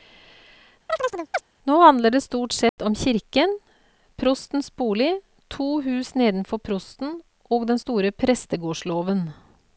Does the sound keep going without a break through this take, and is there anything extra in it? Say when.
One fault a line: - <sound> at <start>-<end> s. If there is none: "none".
- chirp at 0.9-1.4 s
- dropout at 2.7-2.8 s